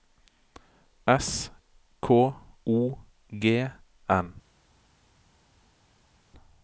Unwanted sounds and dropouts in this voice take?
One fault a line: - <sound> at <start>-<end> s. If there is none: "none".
none